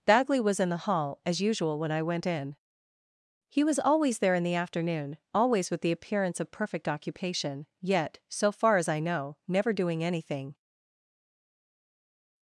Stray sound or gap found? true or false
false